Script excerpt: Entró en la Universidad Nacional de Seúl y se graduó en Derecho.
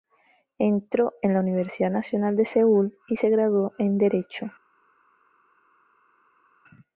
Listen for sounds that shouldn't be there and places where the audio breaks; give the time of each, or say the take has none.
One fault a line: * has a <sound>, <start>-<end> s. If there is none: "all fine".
all fine